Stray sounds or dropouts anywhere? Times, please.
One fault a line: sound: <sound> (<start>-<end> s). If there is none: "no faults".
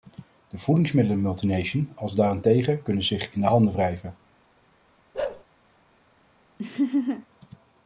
sound: bark (5.1-5.4 s)
sound: laugh (6.6-7.3 s)